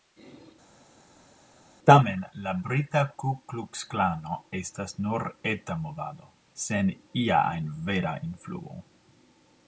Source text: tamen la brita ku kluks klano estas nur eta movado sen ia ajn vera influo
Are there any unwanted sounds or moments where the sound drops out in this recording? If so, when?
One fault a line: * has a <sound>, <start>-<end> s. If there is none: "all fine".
all fine